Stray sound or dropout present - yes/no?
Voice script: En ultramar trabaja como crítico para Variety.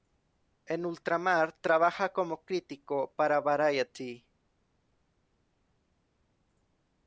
no